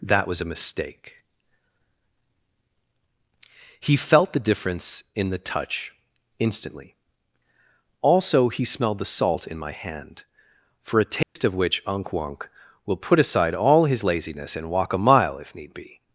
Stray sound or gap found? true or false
true